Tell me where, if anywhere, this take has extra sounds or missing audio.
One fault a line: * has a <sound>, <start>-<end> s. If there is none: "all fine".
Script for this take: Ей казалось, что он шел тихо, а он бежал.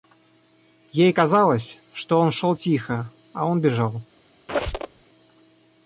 * has a squeak, 4.5-5.0 s